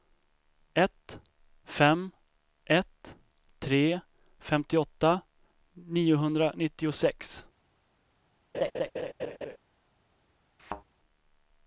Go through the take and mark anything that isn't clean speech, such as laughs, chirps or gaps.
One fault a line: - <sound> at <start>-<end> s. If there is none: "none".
- laugh at 8.5-9.6 s
- thud at 10.6-10.8 s